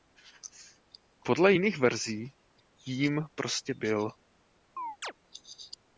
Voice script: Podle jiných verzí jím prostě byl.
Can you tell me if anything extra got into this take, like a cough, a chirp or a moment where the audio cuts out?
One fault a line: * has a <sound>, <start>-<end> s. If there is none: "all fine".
* has a chirp, 4.8-5.1 s